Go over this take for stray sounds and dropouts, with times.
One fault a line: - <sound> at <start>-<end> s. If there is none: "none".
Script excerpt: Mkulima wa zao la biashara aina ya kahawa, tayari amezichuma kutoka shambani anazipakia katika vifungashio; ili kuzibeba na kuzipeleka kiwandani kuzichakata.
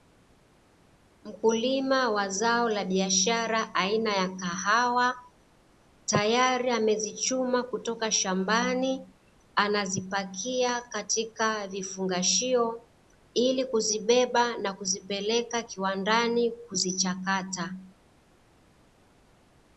none